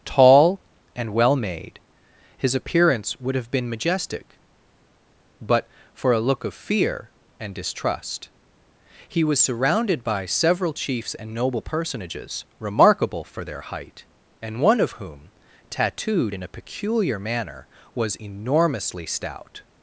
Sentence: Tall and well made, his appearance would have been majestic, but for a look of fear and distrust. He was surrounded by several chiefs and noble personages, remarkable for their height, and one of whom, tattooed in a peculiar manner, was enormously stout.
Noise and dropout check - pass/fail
pass